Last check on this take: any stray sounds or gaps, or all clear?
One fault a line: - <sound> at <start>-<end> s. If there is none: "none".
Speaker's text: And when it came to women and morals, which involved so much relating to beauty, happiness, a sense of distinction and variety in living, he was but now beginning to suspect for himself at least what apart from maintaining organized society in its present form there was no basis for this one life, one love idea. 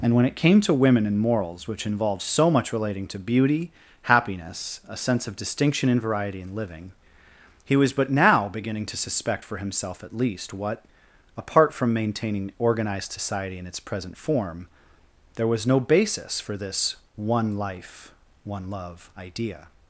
none